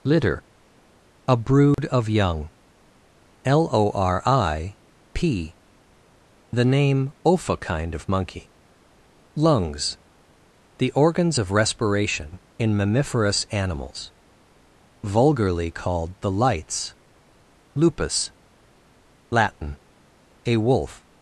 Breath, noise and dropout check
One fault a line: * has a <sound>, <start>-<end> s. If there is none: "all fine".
* has a dropout, 1.7-1.8 s